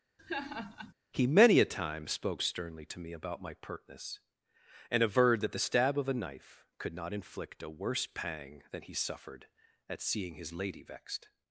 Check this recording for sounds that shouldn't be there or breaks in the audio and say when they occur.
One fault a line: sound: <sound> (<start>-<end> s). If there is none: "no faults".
sound: laugh (0.2-0.9 s)